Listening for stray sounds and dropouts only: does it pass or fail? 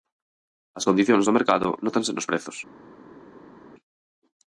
pass